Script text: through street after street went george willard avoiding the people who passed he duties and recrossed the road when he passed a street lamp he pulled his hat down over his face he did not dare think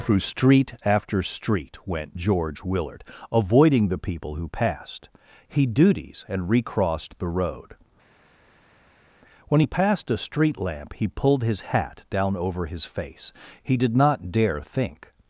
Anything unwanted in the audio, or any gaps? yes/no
no